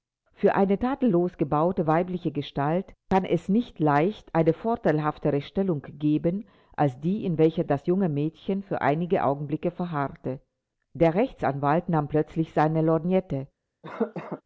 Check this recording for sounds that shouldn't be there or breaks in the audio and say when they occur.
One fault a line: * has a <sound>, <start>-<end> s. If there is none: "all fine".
* has a cough, 13.8-14.4 s